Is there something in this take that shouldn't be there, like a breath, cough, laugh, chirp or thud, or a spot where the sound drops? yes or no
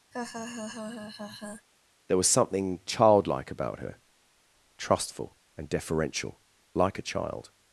yes